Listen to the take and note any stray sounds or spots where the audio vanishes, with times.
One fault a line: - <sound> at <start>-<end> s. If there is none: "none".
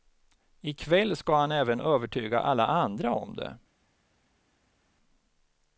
none